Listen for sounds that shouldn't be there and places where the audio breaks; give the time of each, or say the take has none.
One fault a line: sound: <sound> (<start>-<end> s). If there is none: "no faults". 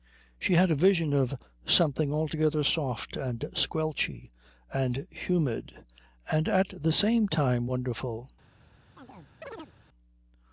sound: chirp (9.0-9.7 s)